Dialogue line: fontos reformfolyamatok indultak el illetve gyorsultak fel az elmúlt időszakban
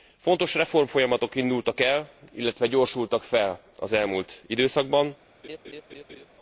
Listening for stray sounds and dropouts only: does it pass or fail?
fail